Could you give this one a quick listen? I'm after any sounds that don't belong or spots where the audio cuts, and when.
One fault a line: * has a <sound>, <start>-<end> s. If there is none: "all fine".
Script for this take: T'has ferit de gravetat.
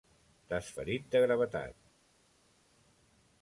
all fine